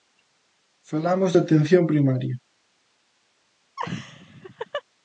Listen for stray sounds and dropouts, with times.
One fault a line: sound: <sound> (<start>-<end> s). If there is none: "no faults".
sound: laugh (3.8-4.8 s)